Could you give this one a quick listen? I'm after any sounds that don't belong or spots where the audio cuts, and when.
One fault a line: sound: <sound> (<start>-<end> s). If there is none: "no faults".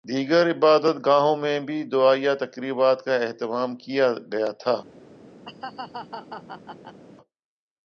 sound: laugh (5.4-7.0 s)